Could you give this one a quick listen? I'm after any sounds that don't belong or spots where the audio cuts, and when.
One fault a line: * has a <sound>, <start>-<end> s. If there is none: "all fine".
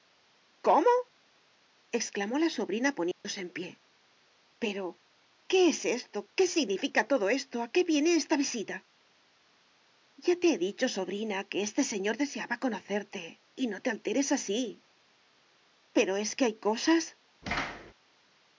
* has a dropout, 3.1-3.2 s
* has a thud, 17.4-17.9 s